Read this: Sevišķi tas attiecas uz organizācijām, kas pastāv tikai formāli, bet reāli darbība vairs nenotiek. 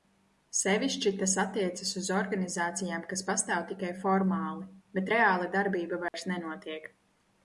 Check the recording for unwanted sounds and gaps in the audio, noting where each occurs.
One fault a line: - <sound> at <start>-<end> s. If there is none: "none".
- dropout at 6.1-6.1 s